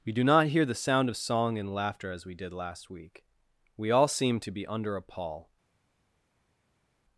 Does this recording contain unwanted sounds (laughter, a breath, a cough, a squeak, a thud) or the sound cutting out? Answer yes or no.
no